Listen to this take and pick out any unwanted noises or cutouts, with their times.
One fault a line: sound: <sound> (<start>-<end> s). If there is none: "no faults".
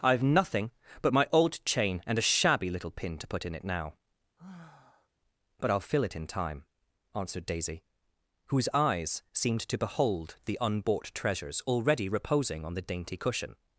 sound: sigh (4.4-5.1 s)